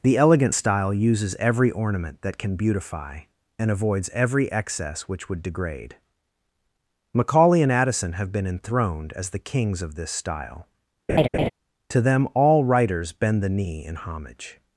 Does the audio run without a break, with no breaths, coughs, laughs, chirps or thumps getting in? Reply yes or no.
no